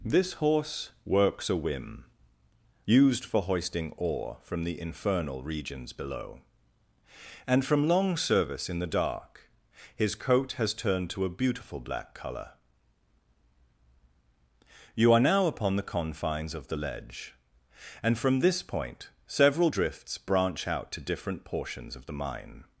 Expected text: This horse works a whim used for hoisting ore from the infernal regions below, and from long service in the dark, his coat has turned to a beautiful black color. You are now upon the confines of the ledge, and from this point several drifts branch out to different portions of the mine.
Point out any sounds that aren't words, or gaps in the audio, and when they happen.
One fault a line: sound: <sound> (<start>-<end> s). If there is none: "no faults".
no faults